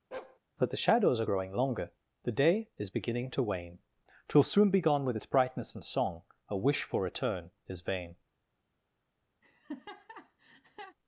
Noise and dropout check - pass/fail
fail